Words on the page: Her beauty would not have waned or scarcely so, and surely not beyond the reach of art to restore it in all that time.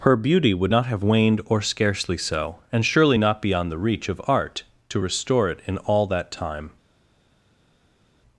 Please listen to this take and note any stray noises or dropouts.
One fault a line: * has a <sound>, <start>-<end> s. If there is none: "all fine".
all fine